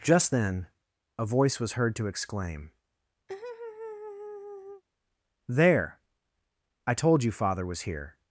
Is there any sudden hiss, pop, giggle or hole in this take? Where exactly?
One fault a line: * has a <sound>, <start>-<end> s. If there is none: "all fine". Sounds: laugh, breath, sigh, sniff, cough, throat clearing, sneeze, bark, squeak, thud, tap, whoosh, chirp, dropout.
* has a laugh, 3.3-4.8 s